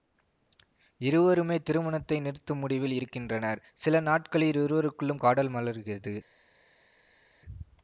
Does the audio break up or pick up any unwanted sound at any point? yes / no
no